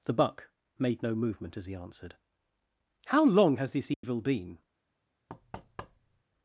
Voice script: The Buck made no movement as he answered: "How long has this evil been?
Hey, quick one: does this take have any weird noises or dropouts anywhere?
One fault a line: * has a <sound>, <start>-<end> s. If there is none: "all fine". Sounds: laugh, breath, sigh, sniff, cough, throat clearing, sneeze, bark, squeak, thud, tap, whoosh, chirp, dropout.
* has a dropout, 3.9-4.0 s
* has a thud, 5.3-6.2 s